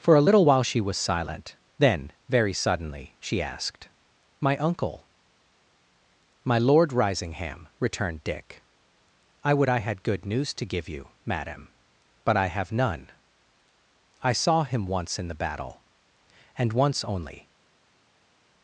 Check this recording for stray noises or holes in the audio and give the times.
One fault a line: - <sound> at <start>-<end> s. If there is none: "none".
none